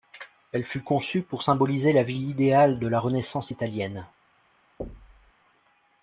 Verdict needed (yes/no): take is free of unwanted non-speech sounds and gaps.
no